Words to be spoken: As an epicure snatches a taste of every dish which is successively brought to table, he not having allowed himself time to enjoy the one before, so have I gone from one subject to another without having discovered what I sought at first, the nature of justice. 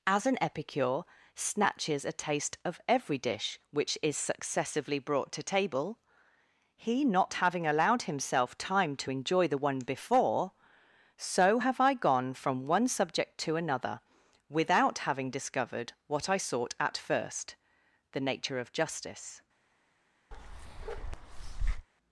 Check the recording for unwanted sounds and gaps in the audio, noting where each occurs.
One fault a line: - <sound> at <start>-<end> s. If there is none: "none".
- bark at 20.3-21.9 s